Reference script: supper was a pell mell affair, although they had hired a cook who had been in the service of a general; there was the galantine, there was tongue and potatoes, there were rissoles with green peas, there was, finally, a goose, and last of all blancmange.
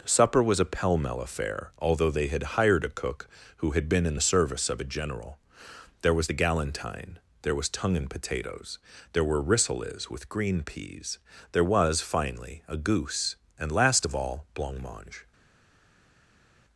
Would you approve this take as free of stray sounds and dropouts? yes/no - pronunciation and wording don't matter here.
yes